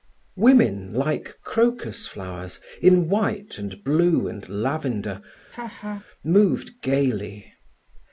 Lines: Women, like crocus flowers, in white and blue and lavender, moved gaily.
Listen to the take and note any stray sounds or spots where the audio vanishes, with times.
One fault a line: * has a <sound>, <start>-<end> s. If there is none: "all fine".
* has a laugh, 5.5-6.0 s